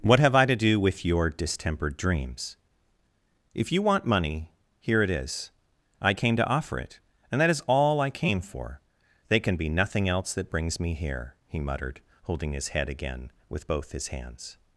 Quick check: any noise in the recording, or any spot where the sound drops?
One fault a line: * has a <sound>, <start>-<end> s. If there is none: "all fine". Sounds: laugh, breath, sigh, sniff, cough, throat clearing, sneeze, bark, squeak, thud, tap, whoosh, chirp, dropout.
all fine